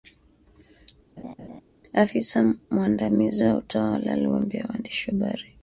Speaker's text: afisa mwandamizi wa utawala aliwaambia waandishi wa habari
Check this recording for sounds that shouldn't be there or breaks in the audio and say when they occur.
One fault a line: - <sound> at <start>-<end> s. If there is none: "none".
- laugh at 1.2-1.6 s